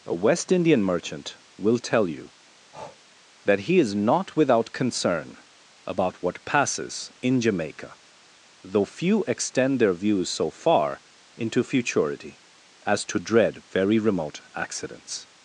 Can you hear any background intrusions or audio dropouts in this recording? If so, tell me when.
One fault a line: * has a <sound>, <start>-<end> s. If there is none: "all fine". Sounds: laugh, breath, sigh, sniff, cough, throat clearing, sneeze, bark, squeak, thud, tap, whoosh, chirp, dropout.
* has a breath, 2.7-3.0 s